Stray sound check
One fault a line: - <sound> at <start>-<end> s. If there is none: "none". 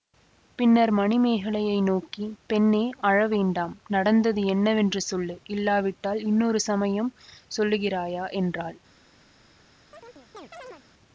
- chirp at 9.9-10.8 s